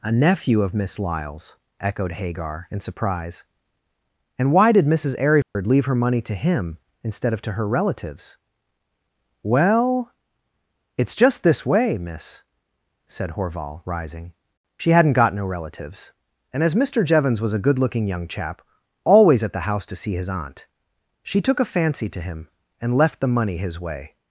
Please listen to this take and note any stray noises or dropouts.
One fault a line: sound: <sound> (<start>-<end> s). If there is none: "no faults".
sound: dropout (5.4-5.6 s)